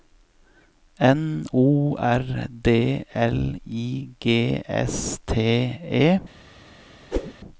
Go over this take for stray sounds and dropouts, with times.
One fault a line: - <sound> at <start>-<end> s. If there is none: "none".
- whoosh at 7.1-7.3 s